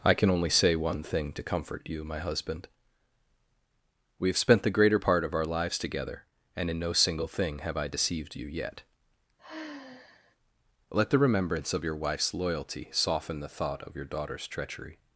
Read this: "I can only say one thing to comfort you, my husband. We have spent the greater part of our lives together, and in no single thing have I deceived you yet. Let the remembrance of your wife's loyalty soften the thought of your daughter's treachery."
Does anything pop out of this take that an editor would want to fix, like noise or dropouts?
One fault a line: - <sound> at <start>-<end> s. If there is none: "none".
- sigh at 9.4-10.4 s